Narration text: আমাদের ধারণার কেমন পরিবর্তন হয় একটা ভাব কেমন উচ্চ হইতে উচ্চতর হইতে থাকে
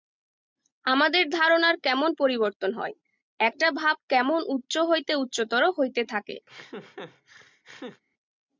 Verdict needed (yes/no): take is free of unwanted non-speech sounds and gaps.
no